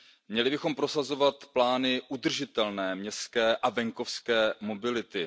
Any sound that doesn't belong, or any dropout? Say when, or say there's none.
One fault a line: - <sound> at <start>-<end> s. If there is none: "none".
none